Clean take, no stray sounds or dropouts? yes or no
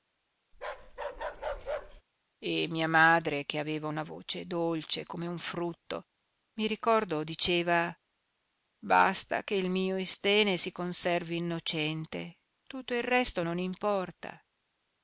no